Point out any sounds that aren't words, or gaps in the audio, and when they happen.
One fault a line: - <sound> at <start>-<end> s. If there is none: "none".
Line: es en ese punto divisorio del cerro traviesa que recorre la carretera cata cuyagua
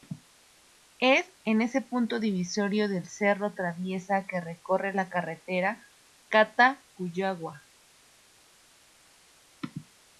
none